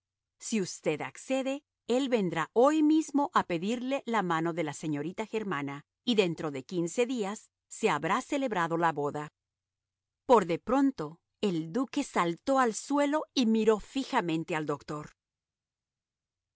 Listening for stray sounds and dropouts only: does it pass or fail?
pass